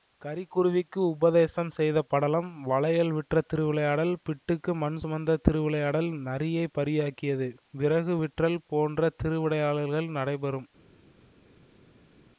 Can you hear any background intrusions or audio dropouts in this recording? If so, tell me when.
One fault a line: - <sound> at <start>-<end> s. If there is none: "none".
none